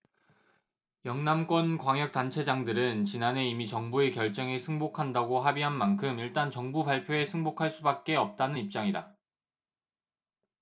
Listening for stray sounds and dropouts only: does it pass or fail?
pass